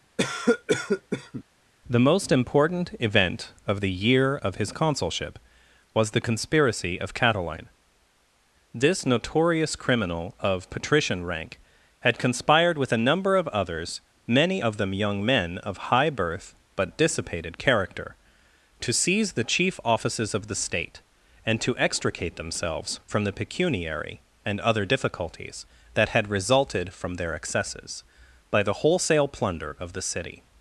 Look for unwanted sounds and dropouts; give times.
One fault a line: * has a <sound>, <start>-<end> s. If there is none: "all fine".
* has a cough, 0.2-1.4 s